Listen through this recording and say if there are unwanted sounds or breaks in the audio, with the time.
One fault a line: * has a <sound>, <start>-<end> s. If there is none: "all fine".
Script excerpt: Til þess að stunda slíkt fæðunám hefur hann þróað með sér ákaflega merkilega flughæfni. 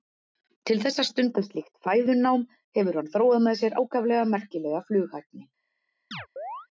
* has a chirp, 6.1-6.7 s